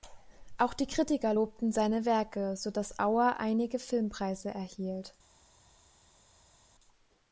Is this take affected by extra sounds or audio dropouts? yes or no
no